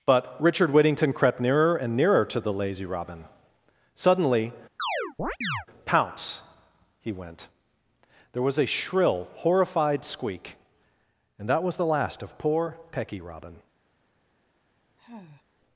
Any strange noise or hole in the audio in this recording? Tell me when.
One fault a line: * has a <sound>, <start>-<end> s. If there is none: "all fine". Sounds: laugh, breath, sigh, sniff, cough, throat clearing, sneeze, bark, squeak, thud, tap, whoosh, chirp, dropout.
* has a chirp, 4.8-5.7 s
* has a sigh, 15.0-15.4 s